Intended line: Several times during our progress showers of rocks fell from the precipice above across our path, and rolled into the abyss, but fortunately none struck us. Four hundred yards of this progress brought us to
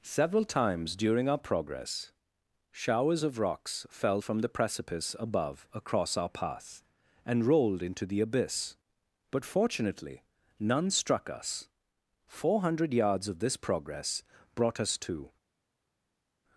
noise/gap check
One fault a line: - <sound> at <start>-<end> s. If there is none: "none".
none